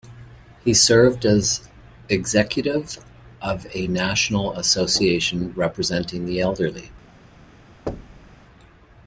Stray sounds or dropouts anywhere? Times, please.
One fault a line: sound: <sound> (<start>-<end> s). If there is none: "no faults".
sound: thud (7.9-8.4 s)